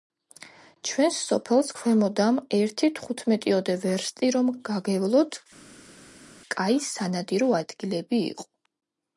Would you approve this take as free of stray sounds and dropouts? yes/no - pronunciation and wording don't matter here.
yes